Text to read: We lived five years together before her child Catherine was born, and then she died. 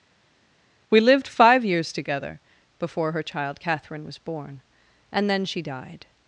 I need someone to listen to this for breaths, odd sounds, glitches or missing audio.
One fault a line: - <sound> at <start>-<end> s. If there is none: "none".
none